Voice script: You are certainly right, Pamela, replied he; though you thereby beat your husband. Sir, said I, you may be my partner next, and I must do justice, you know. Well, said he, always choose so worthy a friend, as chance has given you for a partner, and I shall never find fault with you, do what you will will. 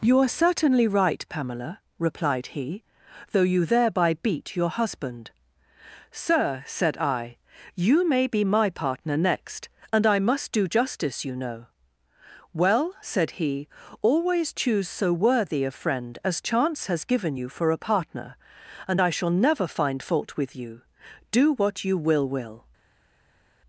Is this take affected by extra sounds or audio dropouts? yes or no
no